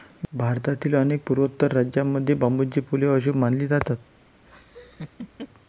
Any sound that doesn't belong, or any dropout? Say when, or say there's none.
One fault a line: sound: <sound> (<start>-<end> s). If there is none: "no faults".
sound: laugh (4.5-5.5 s)